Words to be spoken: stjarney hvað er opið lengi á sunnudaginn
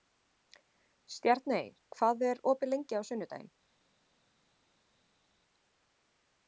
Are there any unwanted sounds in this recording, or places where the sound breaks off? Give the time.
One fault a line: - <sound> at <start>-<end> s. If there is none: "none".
none